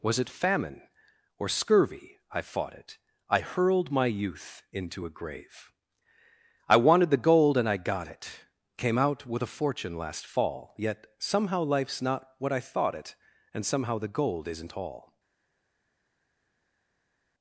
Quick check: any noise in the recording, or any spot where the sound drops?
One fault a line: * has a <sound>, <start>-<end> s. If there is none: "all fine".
all fine